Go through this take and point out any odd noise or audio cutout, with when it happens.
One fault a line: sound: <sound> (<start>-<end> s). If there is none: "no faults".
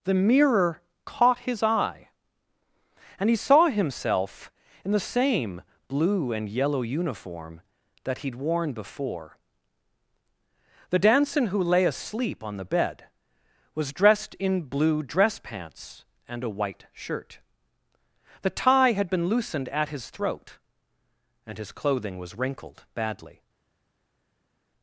no faults